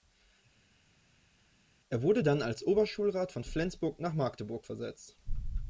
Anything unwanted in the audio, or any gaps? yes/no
no